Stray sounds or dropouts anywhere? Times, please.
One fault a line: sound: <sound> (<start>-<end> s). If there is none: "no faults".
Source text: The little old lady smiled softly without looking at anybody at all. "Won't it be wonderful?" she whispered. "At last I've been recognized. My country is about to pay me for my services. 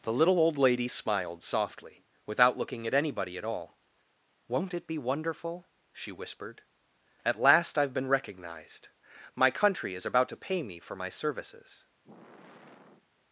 sound: sigh (12.0-13.1 s)